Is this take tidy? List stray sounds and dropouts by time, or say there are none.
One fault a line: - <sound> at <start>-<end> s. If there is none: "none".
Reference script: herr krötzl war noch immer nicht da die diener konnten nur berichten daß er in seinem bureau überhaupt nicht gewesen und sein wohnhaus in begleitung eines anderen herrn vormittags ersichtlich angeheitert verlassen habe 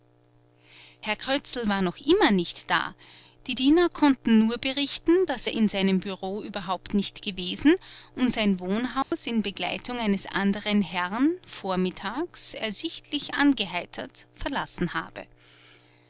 - dropout at 9.0-9.1 s